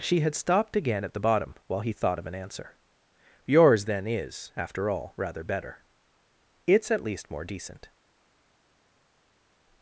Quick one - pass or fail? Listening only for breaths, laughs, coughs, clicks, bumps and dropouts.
pass